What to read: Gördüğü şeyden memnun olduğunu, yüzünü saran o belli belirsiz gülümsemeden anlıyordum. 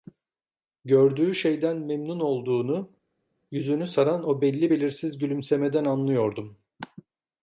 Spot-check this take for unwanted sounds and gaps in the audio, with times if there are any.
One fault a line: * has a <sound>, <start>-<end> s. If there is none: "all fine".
all fine